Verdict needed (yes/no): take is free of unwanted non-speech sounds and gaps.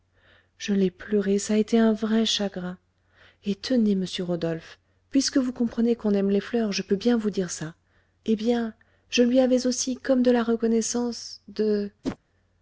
no